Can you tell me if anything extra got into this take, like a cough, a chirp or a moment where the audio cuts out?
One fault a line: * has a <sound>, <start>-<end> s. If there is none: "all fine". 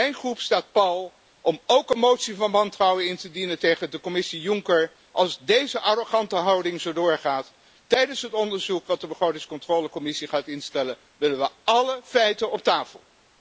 all fine